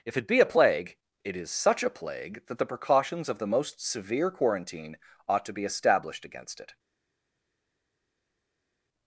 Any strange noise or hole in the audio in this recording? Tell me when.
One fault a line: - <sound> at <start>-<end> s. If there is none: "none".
none